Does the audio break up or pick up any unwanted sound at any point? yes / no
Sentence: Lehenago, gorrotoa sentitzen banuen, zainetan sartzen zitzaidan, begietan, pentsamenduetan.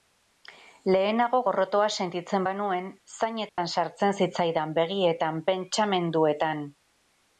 yes